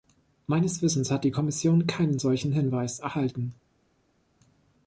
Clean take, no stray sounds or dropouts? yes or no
yes